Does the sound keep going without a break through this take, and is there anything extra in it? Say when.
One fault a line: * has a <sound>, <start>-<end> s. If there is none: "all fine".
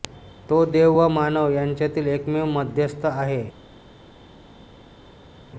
all fine